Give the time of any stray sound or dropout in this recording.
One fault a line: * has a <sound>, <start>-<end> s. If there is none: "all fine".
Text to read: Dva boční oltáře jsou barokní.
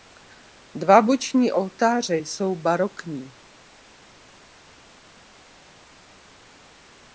all fine